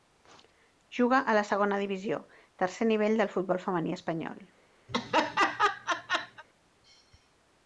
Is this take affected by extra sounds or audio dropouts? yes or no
yes